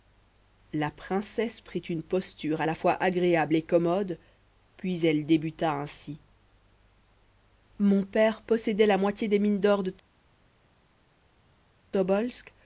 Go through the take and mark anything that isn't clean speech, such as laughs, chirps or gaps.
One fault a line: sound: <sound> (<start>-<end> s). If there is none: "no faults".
no faults